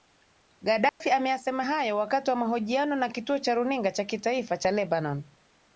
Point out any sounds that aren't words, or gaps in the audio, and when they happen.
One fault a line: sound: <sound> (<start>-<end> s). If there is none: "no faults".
sound: dropout (0.9-1.0 s)